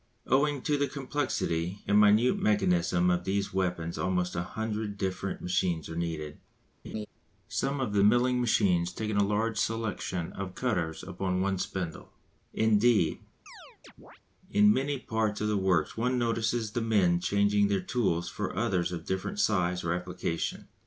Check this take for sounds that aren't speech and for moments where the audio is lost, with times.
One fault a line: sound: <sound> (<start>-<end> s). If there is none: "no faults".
sound: laugh (6.8-7.1 s)
sound: chirp (13.5-14.2 s)